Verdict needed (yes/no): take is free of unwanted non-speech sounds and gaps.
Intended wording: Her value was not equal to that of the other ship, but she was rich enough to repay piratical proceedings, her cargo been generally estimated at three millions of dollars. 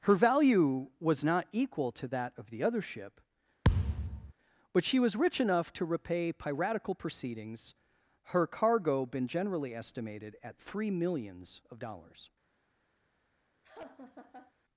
no